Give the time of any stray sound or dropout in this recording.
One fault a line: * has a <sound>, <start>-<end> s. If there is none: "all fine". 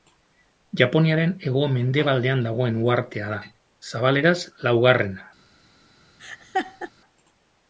* has a laugh, 6.2-6.9 s